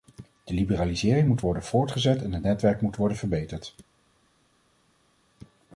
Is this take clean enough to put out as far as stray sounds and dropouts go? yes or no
yes